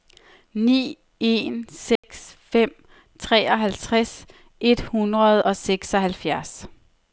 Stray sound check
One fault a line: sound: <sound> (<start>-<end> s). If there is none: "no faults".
sound: dropout (2.0-2.0 s)